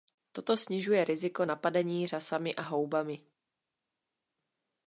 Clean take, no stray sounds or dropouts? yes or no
yes